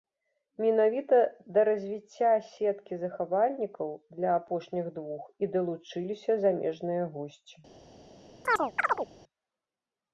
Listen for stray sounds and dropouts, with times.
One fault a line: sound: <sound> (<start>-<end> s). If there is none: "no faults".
sound: chirp (8.4-9.1 s)